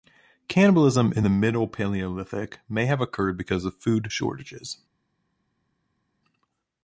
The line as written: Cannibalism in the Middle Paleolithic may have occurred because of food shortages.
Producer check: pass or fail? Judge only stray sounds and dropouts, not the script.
pass